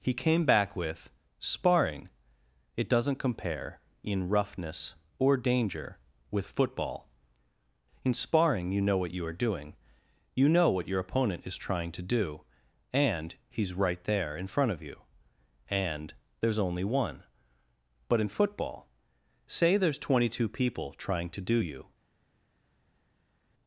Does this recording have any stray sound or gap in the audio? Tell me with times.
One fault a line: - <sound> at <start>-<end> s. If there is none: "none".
none